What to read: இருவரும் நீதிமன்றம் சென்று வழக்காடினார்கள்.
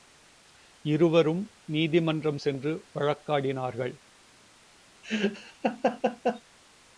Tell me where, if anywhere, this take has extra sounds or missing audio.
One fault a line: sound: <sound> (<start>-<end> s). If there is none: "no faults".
sound: laugh (5.0-6.4 s)